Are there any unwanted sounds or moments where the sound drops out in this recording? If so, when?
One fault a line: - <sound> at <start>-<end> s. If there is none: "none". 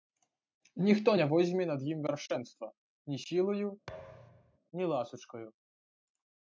- thud at 3.9-4.6 s